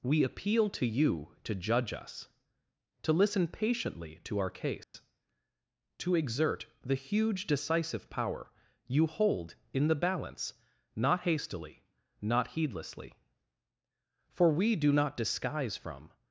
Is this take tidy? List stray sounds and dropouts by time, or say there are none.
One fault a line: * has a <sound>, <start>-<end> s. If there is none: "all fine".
* has a dropout, 4.8-4.9 s